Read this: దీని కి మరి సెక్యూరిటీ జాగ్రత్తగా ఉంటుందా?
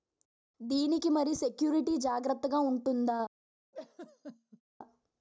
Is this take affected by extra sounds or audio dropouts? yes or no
yes